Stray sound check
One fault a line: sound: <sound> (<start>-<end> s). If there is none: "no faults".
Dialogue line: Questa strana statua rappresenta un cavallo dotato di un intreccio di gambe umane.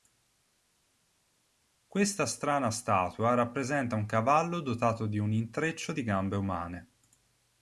no faults